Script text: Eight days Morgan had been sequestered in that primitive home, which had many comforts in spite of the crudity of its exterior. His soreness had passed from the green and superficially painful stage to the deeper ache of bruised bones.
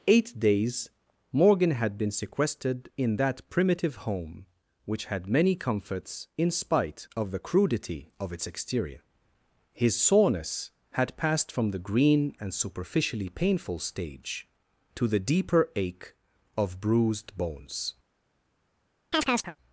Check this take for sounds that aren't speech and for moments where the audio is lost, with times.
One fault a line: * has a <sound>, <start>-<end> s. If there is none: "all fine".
* has a chirp, 19.1-19.6 s